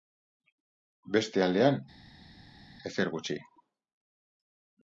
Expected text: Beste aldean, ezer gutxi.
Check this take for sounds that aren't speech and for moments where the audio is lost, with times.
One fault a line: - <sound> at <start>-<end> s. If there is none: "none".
none